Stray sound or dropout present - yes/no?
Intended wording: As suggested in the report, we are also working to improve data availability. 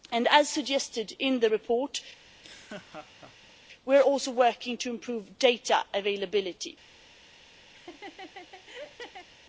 yes